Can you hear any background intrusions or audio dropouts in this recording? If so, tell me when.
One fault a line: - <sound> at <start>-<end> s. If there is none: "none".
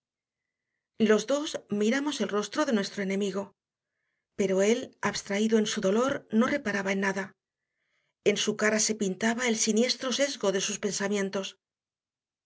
none